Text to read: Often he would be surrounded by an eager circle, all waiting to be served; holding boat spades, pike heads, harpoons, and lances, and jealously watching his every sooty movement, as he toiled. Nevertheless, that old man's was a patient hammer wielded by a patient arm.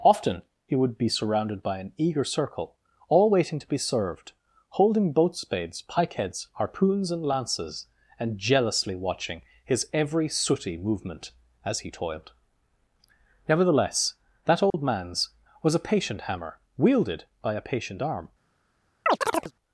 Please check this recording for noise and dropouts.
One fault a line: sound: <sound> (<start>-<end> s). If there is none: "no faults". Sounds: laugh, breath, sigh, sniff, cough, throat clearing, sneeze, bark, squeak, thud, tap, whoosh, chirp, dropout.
sound: dropout (14.7-14.7 s)
sound: chirp (19.1-19.5 s)